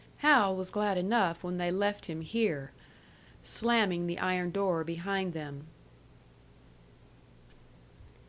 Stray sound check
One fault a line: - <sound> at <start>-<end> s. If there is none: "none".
none